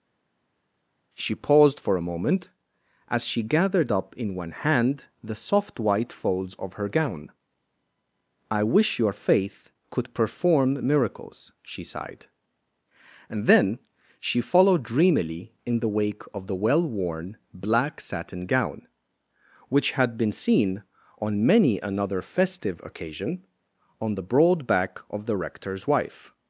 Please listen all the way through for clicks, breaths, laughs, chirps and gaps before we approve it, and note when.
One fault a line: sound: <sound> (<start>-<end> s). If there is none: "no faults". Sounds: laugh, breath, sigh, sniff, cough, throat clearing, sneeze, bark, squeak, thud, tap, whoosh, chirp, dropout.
no faults